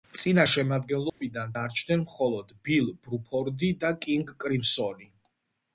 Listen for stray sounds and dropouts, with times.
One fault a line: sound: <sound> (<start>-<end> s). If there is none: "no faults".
sound: dropout (1.1-1.2 s)